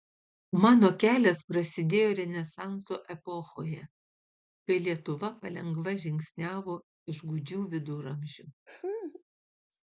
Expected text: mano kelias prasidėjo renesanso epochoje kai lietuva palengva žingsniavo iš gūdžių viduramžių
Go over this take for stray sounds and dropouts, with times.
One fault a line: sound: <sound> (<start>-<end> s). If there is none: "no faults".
sound: laugh (8.7-9.2 s)